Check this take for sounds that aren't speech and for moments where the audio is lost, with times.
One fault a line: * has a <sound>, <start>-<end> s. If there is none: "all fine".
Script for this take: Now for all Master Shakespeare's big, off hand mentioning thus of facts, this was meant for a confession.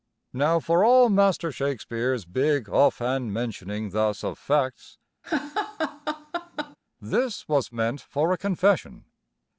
* has a laugh, 5.2-6.8 s